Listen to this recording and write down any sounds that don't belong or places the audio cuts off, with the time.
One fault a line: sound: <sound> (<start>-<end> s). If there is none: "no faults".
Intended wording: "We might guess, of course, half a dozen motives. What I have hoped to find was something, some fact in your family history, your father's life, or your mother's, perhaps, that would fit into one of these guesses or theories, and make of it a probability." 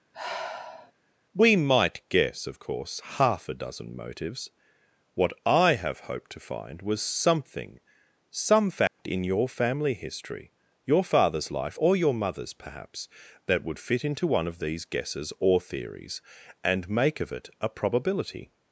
sound: sigh (0.1-0.9 s)
sound: dropout (8.9-9.0 s)